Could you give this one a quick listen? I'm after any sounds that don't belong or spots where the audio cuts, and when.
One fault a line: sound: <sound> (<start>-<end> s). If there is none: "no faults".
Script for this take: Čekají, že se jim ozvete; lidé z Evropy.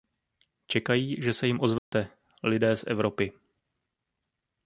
sound: dropout (1.8-1.9 s)